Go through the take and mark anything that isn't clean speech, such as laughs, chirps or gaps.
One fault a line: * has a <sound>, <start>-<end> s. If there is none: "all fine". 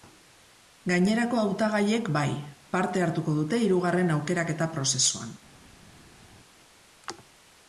all fine